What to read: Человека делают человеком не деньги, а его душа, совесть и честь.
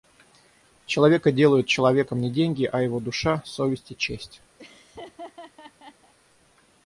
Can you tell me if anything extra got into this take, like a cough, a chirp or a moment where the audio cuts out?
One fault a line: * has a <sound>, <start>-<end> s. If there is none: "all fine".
* has a laugh, 4.6-6.1 s